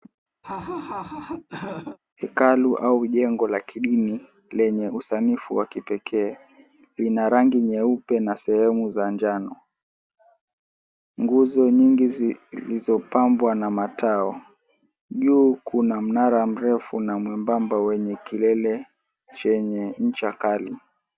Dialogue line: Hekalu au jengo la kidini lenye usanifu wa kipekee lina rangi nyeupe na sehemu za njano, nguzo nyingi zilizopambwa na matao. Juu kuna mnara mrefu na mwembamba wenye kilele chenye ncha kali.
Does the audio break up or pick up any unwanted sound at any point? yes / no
yes